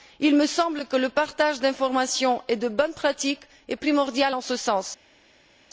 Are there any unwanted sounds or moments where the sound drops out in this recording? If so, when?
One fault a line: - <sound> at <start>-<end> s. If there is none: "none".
none